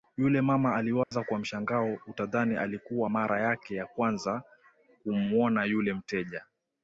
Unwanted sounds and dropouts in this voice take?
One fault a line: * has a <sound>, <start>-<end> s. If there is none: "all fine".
* has a dropout, 1.0-1.1 s